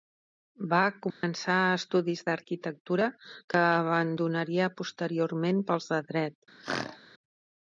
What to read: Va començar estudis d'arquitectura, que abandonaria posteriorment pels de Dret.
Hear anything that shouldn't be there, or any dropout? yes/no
yes